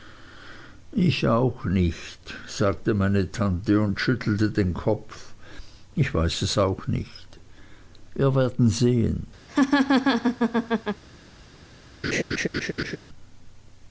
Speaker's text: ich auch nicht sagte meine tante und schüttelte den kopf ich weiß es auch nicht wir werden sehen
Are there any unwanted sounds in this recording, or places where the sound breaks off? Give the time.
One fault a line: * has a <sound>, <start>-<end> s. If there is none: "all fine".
* has a laugh, 9.5-11.0 s
* has a laugh, 12.0-13.0 s